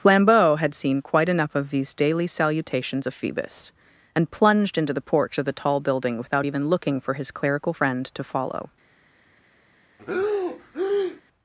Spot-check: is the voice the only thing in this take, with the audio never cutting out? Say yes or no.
no